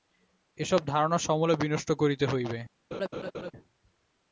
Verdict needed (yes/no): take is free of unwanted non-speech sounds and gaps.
no